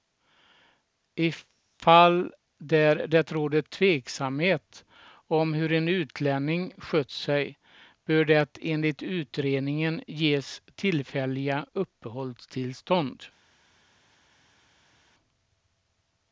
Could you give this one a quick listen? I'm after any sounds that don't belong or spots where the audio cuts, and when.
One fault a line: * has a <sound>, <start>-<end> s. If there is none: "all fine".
all fine